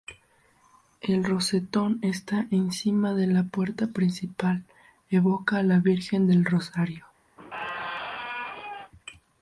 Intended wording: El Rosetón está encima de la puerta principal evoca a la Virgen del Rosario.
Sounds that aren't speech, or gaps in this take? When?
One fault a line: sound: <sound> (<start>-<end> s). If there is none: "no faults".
sound: squeak (7.4-8.9 s)